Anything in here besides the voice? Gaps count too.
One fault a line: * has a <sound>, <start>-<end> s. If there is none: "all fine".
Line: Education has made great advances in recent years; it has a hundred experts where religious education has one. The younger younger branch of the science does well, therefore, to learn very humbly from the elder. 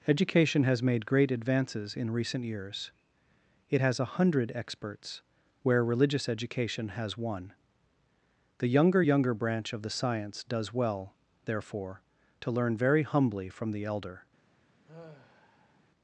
* has a sigh, 14.9-15.8 s